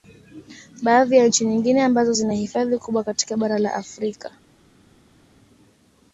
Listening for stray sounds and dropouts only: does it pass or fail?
pass